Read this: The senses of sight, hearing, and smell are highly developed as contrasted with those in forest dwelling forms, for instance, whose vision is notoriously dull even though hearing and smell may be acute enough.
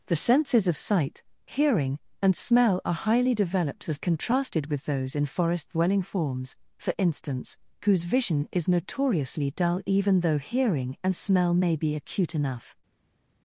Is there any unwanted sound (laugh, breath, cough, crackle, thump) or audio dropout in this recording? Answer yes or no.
no